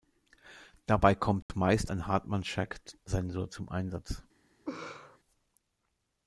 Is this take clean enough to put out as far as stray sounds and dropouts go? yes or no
no